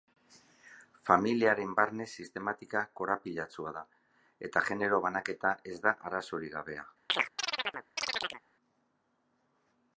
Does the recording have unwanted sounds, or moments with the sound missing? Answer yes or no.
yes